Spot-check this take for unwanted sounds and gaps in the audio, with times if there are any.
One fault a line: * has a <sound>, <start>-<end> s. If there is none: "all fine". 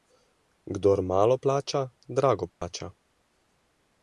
* has a dropout, 2.5-2.6 s